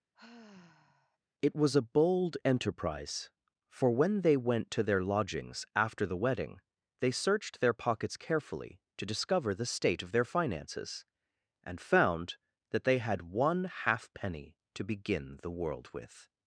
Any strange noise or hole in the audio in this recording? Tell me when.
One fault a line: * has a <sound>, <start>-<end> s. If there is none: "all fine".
* has a sigh, 0.1-1.2 s